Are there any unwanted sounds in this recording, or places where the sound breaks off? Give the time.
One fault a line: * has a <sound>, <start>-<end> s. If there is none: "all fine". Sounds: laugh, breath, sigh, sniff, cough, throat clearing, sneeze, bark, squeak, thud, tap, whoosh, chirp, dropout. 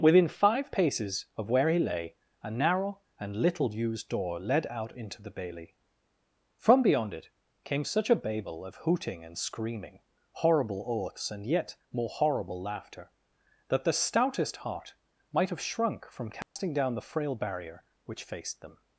* has a dropout, 16.4-16.6 s